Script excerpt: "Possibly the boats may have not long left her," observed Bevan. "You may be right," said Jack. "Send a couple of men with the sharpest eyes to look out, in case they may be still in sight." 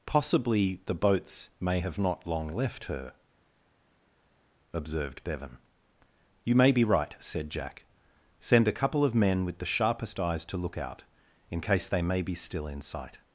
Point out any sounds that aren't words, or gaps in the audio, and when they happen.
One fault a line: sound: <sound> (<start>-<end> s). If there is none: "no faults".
no faults